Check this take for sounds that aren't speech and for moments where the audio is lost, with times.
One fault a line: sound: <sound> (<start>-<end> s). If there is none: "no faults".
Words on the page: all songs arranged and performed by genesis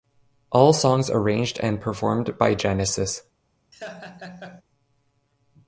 sound: laugh (3.7-4.6 s)